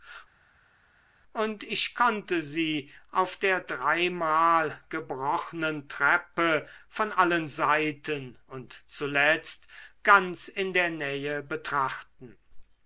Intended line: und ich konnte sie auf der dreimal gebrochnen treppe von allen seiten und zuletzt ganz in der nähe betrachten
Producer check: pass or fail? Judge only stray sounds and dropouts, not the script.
pass